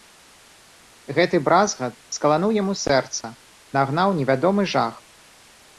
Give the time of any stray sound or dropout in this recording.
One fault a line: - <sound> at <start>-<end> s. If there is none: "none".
- dropout at 3.2-3.2 s